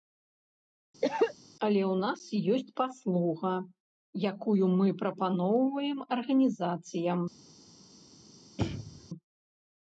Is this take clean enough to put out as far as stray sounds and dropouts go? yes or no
no